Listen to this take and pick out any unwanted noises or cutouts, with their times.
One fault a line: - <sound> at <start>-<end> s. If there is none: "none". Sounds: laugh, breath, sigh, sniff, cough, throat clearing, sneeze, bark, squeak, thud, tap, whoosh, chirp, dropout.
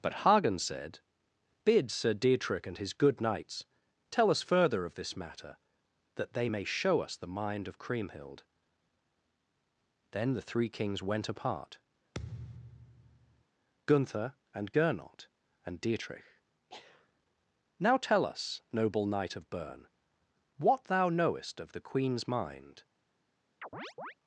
- thud at 12.1-13.4 s
- chirp at 23.6-24.1 s